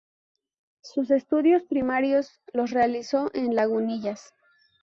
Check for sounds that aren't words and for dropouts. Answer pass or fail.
pass